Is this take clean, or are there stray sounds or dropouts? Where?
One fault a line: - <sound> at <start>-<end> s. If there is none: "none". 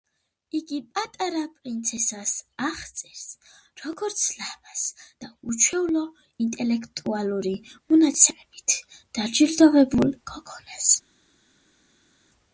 none